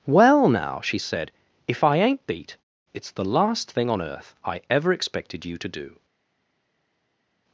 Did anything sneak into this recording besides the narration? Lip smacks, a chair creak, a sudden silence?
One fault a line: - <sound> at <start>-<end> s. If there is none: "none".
none